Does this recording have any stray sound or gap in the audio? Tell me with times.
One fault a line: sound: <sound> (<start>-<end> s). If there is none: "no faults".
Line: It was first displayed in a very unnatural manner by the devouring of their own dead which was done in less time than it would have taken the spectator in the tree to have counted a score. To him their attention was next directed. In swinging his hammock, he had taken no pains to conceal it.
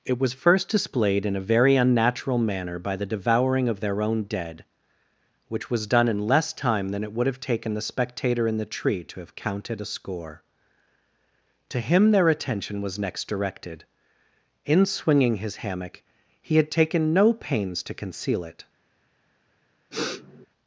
sound: sniff (19.9-20.5 s)